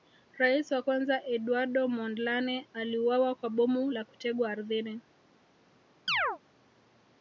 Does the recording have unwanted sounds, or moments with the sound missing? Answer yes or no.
yes